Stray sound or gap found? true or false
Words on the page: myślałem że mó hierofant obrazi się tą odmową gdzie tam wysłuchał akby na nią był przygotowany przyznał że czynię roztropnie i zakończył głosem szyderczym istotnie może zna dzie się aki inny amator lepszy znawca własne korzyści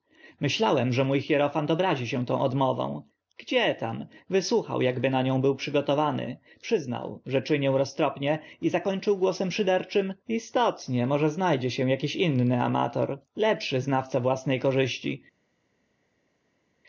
false